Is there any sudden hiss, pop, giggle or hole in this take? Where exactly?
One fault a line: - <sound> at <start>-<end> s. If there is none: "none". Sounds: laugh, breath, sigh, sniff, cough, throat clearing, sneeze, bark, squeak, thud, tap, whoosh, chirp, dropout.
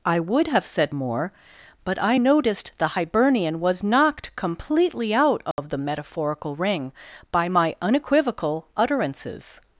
- dropout at 5.5-5.6 s